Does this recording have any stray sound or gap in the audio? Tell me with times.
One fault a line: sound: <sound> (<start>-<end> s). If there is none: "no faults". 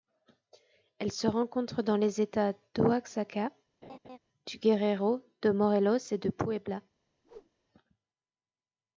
sound: laugh (3.8-4.2 s)
sound: whoosh (7.2-7.5 s)